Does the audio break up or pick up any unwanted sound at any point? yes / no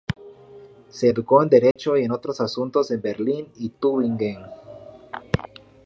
yes